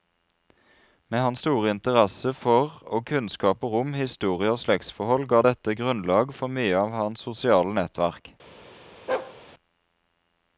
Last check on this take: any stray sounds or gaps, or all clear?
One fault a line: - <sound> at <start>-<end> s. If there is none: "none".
- bark at 9.1-9.4 s